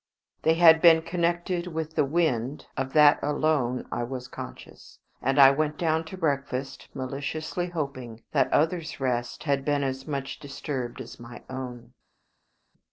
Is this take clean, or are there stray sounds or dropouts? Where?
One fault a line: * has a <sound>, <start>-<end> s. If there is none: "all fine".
all fine